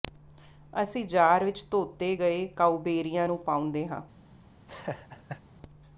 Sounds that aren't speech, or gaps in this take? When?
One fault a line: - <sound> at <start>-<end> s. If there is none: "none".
- laugh at 4.7-5.4 s